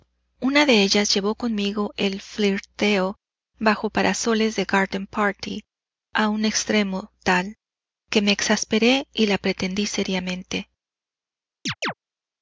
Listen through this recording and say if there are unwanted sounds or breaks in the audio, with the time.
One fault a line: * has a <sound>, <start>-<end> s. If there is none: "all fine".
* has a chirp, 11.7-11.9 s